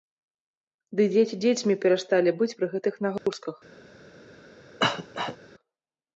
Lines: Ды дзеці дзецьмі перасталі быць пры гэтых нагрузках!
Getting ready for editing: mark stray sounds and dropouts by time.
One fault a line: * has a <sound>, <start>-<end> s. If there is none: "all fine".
* has a dropout, 3.2-3.3 s
* has a cough, 4.8-5.4 s